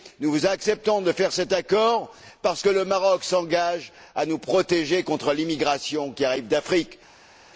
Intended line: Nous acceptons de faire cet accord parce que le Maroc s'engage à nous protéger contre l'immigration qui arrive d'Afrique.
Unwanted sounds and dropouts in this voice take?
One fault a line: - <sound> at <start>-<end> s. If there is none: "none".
none